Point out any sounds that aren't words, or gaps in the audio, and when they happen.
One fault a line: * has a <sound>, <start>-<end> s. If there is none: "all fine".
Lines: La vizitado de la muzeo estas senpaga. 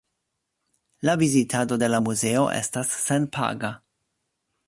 all fine